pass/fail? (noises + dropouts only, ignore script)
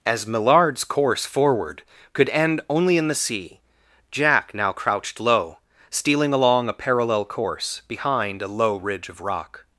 pass